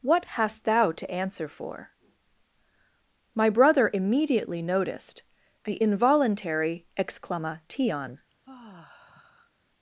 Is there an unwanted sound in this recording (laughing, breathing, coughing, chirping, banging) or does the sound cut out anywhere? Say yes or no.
yes